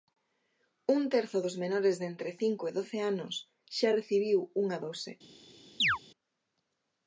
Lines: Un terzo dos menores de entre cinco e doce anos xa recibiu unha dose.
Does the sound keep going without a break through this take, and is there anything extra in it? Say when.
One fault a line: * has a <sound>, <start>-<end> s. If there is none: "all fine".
* has a chirp, 5.8-6.0 s